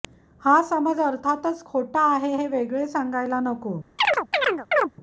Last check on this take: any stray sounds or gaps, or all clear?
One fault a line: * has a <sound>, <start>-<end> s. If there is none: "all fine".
* has a chirp, 4.0-4.9 s